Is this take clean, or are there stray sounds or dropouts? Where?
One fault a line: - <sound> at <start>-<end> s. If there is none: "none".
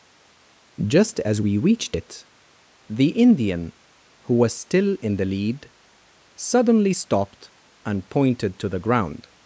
none